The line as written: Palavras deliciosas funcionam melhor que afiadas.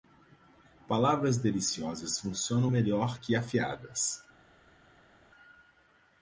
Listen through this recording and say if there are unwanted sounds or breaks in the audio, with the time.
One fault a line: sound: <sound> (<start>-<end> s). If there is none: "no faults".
no faults